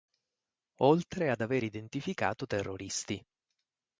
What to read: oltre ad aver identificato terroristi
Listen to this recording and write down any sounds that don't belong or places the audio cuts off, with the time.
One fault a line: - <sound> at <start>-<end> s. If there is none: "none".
none